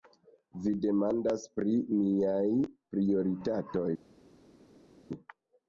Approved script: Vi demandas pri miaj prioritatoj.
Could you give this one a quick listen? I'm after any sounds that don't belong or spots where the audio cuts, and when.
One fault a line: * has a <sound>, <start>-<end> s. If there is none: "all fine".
all fine